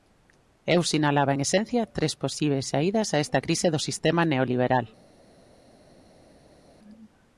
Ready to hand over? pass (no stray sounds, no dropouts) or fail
pass